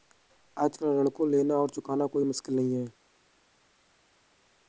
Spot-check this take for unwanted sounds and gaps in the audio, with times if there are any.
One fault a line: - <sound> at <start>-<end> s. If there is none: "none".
none